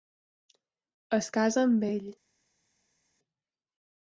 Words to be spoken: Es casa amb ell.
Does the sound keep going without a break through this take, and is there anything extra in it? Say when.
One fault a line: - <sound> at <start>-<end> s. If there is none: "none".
none